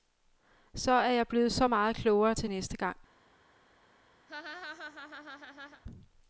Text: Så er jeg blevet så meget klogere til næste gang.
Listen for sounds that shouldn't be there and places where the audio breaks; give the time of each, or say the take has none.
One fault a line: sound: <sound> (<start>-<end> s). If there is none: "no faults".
sound: laugh (4.3-5.8 s)